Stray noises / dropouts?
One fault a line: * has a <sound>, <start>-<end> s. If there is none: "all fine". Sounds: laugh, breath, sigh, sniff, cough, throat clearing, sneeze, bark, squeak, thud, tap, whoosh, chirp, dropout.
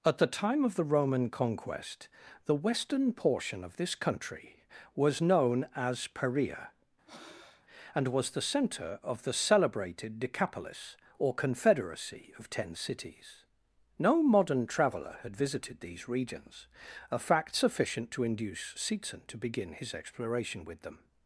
* has a breath, 7.1-7.7 s